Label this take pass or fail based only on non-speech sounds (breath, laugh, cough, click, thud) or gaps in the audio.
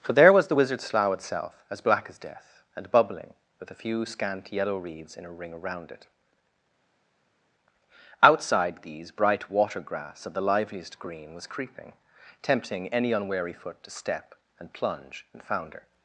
pass